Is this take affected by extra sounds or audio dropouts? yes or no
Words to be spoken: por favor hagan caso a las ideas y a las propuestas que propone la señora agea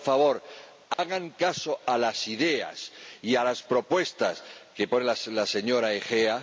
yes